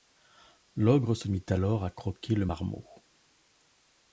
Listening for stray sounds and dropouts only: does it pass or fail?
pass